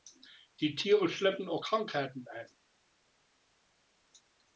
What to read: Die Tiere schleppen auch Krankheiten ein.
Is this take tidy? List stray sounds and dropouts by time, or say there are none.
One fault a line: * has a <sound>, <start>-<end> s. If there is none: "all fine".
all fine